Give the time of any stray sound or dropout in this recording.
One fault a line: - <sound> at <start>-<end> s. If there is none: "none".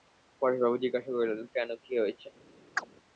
- chirp at 2.8-2.9 s